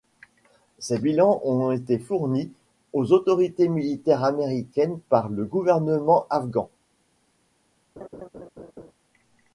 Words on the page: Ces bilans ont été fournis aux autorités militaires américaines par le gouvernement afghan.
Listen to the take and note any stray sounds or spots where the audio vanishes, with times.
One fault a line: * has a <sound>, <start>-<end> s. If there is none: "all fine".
* has a laugh, 8.0-8.9 s